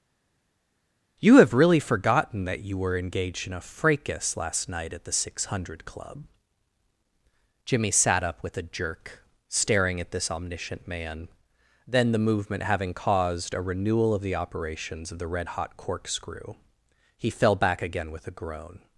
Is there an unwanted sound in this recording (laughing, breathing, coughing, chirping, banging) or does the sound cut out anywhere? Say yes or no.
no